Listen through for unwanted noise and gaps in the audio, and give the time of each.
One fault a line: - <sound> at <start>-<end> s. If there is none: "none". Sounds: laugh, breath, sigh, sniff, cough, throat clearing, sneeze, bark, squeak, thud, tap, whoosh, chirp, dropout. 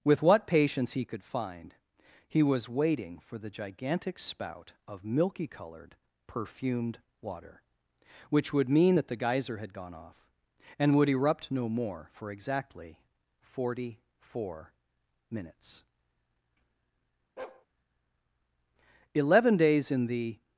- bark at 17.4-17.7 s